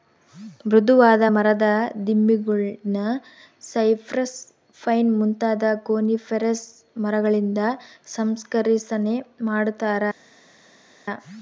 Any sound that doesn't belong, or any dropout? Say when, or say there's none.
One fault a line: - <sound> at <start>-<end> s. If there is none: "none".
none